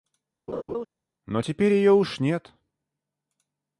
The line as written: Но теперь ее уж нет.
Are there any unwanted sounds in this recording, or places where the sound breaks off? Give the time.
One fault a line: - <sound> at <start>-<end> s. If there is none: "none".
- laugh at 0.5-0.9 s